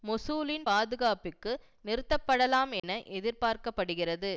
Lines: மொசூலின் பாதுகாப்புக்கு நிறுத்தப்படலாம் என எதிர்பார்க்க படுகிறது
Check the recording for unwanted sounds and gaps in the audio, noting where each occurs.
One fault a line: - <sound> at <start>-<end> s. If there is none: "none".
- dropout at 2.8-2.8 s